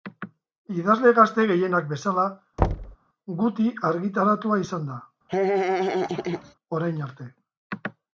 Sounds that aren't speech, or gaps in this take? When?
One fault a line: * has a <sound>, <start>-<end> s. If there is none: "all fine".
* has a thud, 2.6-3.0 s
* has a laugh, 5.3-6.5 s